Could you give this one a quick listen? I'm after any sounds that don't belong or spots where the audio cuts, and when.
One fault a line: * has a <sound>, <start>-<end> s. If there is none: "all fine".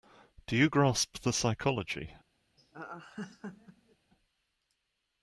* has a laugh, 2.6-4.0 s